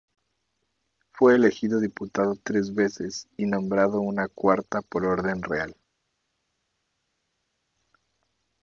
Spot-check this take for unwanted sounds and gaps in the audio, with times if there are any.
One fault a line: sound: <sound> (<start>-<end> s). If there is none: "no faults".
no faults